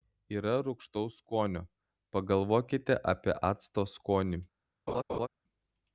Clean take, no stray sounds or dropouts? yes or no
no